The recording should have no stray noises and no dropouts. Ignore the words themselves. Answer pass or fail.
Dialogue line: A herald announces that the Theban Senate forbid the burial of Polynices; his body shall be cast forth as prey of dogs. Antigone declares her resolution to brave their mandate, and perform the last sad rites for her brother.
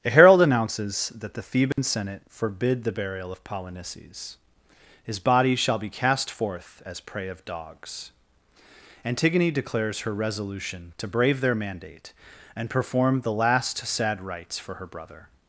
fail